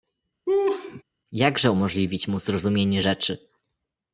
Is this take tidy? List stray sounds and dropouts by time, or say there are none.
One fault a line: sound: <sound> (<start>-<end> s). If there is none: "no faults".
sound: laugh (0.5-1.0 s)